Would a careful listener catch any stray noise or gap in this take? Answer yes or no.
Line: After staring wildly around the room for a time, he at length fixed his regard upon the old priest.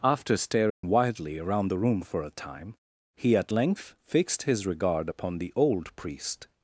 yes